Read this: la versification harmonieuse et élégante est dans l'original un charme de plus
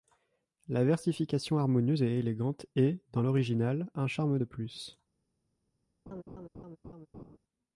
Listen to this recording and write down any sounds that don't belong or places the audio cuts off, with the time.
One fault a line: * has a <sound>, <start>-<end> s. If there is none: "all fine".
* has a laugh, 6.1-7.4 s